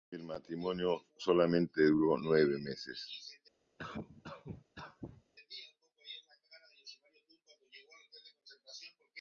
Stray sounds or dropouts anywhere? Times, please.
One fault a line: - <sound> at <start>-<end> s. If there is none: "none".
- cough at 3.8-5.2 s